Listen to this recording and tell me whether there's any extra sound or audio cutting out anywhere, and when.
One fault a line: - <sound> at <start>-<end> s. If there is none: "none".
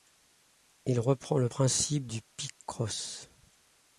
none